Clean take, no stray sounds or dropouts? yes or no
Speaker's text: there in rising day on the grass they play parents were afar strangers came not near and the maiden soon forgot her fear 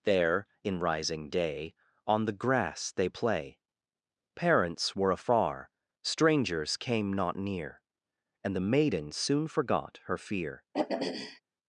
no